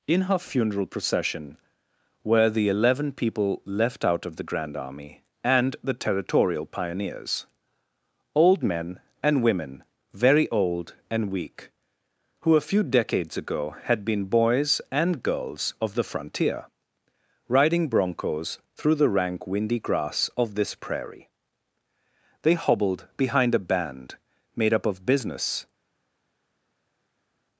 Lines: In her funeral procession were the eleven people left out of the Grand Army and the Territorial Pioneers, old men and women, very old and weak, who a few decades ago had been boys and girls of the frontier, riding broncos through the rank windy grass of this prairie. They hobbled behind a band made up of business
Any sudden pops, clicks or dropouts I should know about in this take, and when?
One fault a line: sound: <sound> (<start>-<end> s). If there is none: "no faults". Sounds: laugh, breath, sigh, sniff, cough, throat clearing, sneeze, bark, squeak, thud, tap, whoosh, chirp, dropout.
no faults